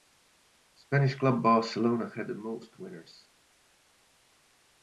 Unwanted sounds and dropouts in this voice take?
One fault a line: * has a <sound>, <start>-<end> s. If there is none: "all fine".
all fine